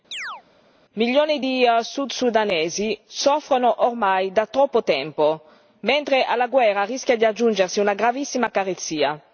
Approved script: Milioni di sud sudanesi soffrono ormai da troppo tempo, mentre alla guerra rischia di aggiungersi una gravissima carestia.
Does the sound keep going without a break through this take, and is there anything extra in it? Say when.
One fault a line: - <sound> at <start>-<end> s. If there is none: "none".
- chirp at 0.1-0.4 s